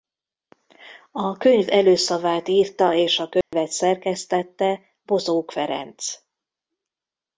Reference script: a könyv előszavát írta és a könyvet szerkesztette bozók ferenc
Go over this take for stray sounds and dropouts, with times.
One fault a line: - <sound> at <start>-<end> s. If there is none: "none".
- dropout at 3.4-3.5 s